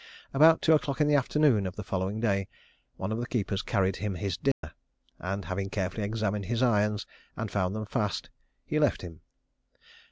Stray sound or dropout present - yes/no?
yes